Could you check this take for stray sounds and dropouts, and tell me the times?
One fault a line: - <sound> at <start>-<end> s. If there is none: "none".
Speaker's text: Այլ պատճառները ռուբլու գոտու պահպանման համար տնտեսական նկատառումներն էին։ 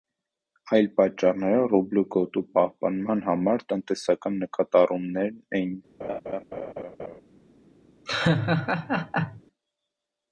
- laugh at 6.0-7.2 s
- laugh at 8.1-9.4 s